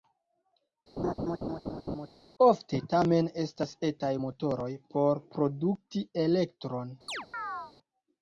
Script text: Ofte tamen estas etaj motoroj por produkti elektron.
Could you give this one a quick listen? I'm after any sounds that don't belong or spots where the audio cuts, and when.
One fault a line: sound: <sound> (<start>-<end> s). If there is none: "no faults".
sound: laugh (1.0-2.1 s)
sound: chirp (7.1-7.7 s)